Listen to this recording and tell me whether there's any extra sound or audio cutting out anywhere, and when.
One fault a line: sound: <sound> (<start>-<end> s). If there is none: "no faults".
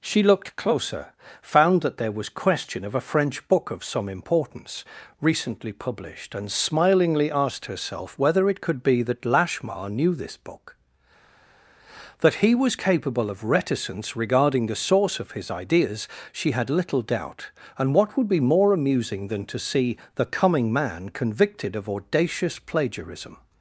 no faults